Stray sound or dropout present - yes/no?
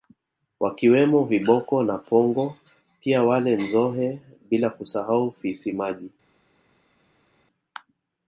no